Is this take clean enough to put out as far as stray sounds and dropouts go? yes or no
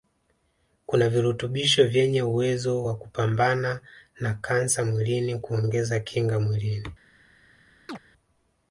no